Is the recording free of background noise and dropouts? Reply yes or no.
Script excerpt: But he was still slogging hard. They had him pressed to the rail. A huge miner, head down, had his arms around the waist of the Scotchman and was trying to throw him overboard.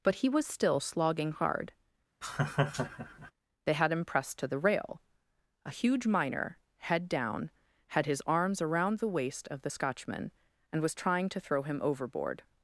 no